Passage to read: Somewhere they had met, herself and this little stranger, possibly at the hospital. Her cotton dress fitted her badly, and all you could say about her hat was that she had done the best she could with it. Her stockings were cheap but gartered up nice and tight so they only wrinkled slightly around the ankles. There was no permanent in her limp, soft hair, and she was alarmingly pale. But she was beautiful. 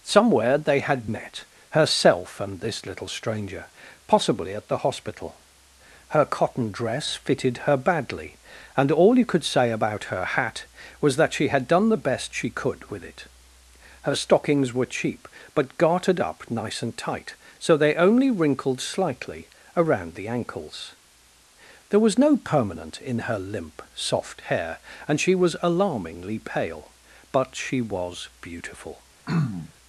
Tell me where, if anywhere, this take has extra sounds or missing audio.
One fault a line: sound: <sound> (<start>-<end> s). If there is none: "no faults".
sound: throat clearing (29.3-29.7 s)